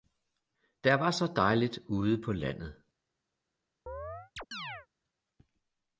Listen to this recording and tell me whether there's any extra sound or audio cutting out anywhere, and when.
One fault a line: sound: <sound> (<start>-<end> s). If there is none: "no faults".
sound: chirp (3.9-4.9 s)